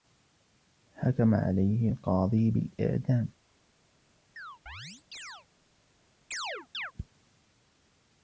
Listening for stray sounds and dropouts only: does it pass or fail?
fail